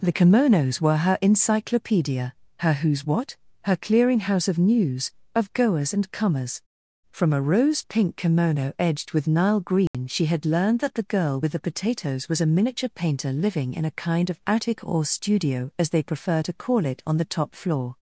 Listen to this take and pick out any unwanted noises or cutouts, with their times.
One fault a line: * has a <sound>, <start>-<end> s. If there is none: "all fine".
* has a dropout, 9.9-9.9 s